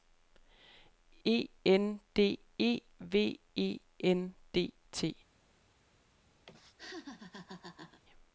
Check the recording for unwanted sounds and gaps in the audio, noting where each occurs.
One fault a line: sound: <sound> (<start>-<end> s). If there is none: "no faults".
sound: laugh (6.5-8.0 s)